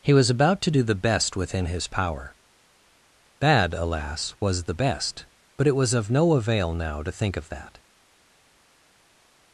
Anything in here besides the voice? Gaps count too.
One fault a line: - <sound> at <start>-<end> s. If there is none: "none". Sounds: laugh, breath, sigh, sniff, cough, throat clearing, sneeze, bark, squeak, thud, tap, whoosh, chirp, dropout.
none